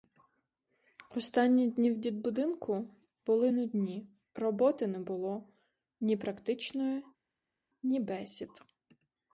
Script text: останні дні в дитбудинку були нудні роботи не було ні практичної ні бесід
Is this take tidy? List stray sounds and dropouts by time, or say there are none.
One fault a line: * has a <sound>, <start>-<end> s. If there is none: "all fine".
all fine